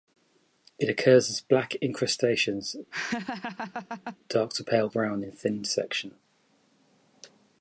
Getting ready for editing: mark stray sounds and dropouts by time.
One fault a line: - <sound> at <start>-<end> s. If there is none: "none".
- laugh at 2.9-4.2 s